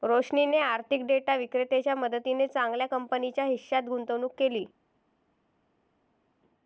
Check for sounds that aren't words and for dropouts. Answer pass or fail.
pass